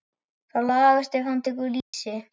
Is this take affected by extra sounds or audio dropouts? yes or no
yes